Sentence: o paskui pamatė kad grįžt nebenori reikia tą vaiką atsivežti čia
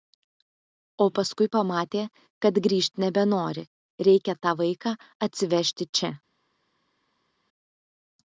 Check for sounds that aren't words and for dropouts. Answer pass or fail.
pass